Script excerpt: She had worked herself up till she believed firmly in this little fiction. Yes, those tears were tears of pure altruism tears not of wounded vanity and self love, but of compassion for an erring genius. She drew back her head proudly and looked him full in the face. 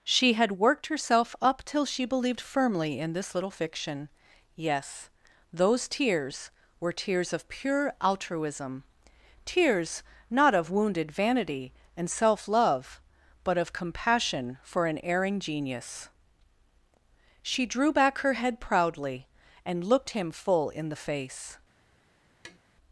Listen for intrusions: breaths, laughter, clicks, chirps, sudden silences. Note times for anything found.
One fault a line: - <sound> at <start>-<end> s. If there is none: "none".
- tap at 22.4-22.6 s